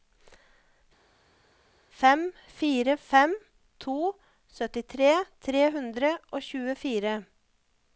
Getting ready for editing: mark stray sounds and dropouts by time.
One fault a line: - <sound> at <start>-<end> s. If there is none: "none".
none